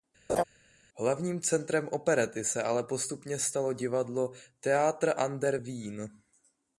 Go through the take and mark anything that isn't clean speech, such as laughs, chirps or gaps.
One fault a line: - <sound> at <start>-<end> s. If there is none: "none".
- laugh at 0.3-0.4 s